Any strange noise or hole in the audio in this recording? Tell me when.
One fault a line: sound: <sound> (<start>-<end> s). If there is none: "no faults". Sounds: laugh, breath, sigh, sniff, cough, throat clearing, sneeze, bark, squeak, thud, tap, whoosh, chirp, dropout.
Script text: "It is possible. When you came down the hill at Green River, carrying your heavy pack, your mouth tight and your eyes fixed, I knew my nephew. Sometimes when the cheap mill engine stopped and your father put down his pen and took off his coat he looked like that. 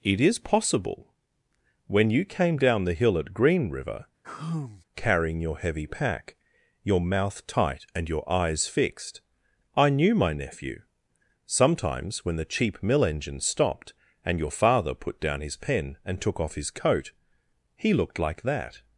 sound: sigh (4.2-4.8 s)